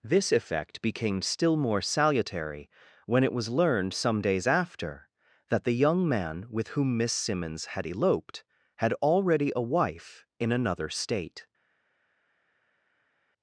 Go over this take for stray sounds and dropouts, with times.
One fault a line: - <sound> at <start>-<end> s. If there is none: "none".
none